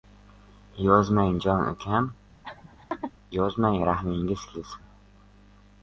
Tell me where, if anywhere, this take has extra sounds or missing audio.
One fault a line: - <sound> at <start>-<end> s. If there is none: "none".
- laugh at 2.4-3.1 s